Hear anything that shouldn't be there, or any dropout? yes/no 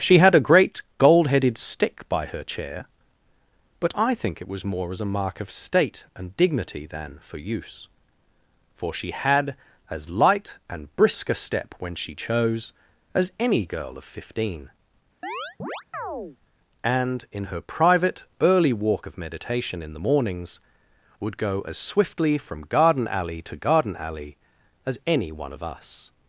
yes